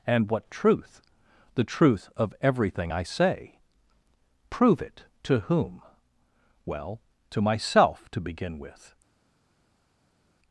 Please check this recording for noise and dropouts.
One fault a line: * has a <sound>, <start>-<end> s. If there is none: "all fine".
all fine